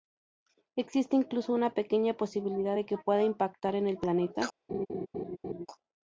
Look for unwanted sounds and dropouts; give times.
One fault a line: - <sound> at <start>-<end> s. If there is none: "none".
- laugh at 4.7-5.7 s